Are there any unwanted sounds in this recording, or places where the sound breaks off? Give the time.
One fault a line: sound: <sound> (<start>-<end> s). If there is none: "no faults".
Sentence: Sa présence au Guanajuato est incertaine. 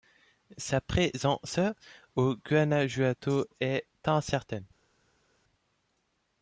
no faults